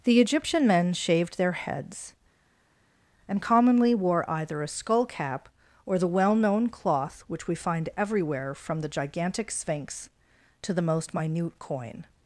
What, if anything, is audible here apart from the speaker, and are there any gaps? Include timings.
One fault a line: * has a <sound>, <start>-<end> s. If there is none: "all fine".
all fine